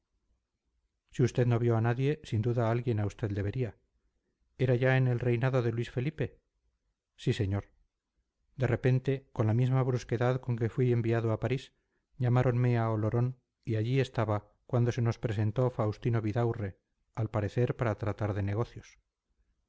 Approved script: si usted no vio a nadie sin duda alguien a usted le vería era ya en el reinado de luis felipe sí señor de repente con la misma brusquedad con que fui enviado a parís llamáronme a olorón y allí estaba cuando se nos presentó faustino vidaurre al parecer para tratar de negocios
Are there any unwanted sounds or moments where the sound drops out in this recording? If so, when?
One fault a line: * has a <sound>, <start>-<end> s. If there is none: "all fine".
all fine